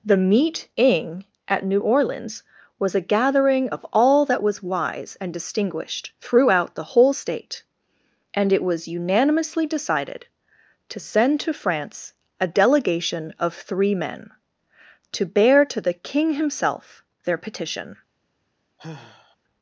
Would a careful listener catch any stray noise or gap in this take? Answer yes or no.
yes